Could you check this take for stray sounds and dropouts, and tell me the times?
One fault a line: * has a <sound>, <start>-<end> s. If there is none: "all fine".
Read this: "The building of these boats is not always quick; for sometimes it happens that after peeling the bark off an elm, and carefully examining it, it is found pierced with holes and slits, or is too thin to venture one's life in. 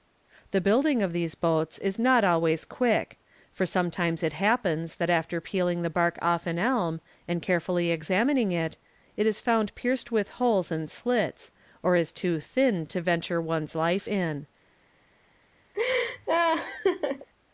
* has a laugh, 15.7-17.3 s